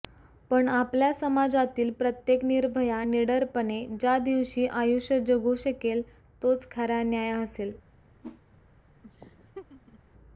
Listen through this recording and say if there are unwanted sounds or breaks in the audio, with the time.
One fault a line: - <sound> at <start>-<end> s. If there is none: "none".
- whoosh at 8.2-8.4 s
- laugh at 9.0-10.0 s